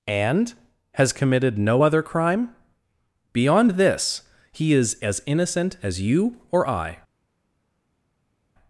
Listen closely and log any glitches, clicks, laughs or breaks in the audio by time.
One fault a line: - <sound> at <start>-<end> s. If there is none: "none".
none